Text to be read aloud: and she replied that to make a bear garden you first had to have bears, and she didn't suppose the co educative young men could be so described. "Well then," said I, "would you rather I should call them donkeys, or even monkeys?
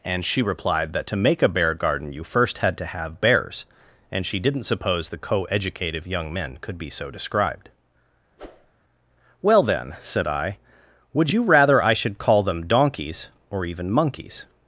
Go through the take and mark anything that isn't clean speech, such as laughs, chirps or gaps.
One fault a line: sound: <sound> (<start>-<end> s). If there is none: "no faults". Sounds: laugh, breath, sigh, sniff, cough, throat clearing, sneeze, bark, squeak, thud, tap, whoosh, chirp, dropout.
sound: whoosh (8.4-8.7 s)